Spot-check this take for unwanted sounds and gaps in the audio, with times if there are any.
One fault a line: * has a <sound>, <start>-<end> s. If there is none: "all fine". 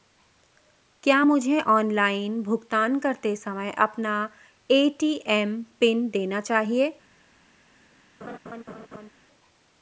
* has a laugh, 8.2-9.1 s